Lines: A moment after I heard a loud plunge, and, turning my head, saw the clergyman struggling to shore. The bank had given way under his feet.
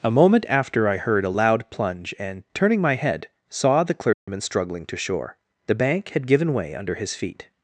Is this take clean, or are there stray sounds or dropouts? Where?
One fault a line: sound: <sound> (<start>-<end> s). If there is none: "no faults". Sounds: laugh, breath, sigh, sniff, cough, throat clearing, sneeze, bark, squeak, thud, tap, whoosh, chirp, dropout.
sound: dropout (4.1-4.3 s)